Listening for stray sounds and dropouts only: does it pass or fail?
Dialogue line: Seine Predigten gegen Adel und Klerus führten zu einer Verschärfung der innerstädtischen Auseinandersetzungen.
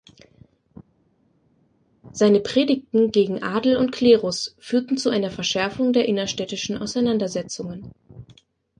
pass